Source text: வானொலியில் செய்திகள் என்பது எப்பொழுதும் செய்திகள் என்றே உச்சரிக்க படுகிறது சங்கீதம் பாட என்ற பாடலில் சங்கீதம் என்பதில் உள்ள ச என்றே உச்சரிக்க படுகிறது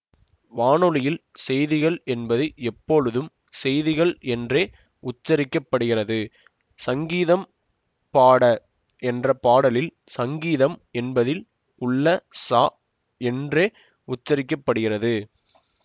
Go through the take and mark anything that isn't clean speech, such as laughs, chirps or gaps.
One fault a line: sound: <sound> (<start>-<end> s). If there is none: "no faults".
no faults